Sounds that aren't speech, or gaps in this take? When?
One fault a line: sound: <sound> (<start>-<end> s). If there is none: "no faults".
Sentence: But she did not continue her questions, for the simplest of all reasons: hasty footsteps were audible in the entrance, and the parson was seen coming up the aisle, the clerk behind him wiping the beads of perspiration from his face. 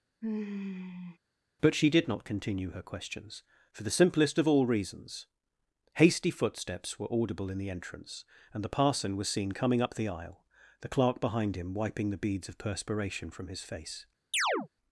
sound: sigh (0.2-1.2 s)
sound: chirp (14.3-14.7 s)